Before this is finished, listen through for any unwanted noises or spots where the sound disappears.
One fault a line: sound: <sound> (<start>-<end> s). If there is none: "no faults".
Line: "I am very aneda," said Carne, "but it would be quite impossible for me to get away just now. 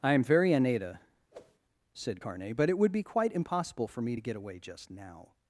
sound: whoosh (1.3-1.6 s)